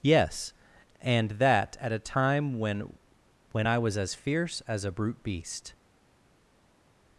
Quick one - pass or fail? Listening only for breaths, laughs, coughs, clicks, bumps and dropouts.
pass